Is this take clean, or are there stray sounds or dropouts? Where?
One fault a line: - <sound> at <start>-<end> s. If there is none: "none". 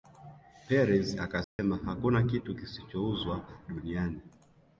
- dropout at 1.4-1.6 s